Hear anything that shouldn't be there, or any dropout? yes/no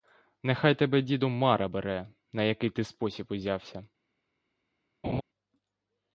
yes